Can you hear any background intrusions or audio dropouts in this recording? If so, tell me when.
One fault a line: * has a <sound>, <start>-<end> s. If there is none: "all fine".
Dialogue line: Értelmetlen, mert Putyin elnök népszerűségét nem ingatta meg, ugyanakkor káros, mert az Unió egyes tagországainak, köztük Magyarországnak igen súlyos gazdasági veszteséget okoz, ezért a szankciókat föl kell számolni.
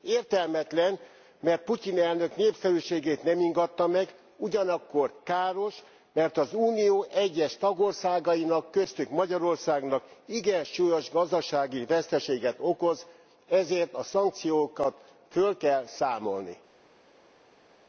all fine